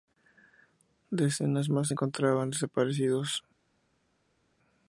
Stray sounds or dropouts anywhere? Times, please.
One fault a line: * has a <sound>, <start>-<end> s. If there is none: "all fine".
all fine